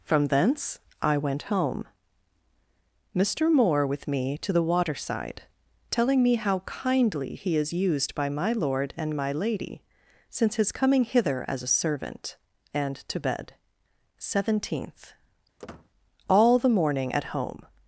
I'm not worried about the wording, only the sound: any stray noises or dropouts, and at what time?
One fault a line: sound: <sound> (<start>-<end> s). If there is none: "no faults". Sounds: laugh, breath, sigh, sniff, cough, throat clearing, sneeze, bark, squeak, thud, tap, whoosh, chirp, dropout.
sound: squeak (15.6-15.9 s)